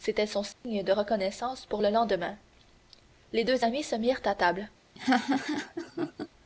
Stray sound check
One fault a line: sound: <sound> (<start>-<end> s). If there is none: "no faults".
sound: dropout (0.5-0.6 s)
sound: laugh (5.0-6.3 s)